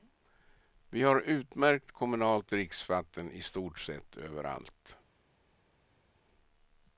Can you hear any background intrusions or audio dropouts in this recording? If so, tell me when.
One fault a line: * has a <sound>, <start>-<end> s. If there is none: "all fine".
all fine